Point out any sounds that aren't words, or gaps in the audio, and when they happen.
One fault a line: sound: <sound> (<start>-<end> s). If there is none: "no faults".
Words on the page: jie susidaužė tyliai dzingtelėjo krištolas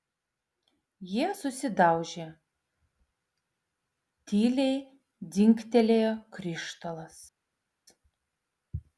no faults